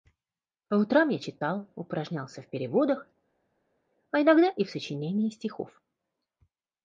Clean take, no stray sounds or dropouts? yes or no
yes